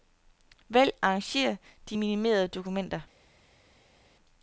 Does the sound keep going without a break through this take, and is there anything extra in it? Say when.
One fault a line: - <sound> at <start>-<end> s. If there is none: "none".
none